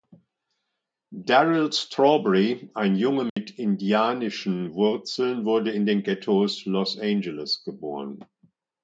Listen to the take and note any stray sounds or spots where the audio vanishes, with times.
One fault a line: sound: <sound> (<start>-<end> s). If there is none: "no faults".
sound: dropout (3.3-3.4 s)